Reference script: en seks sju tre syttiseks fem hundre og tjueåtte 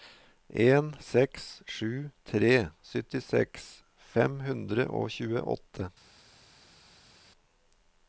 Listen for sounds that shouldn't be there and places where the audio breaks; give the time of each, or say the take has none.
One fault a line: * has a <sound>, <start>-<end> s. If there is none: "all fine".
all fine